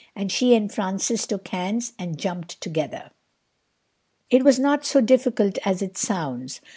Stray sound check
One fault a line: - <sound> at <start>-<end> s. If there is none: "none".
none